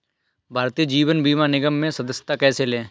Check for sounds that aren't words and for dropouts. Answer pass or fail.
pass